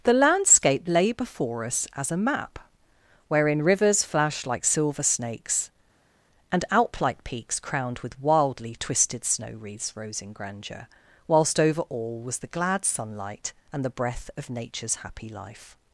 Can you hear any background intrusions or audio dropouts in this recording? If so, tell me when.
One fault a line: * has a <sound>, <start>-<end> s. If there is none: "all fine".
all fine